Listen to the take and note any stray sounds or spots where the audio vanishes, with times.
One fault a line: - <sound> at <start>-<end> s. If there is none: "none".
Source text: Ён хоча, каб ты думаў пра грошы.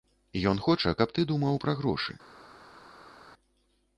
none